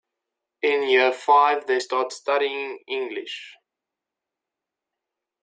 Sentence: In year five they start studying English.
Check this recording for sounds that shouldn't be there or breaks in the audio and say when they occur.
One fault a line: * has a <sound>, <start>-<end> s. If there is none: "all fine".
all fine